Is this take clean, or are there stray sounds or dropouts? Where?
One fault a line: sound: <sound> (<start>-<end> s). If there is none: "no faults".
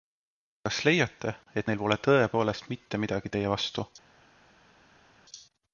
no faults